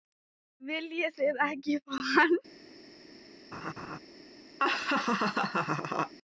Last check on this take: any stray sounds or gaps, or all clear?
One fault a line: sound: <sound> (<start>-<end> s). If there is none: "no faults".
sound: laugh (3.5-4.0 s)
sound: laugh (4.6-6.1 s)